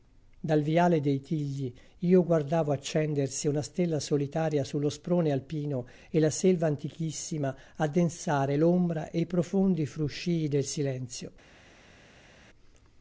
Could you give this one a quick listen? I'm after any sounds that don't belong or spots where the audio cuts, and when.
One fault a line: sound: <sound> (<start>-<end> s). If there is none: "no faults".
no faults